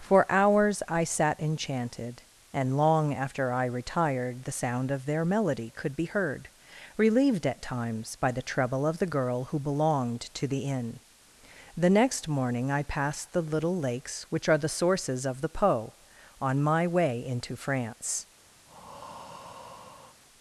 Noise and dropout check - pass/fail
fail